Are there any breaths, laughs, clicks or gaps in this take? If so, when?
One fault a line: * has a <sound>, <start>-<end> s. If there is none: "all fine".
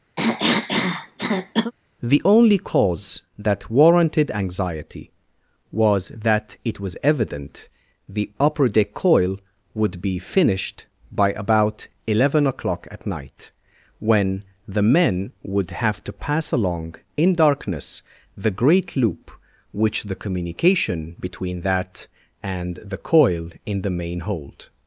* has a cough, 0.2-1.7 s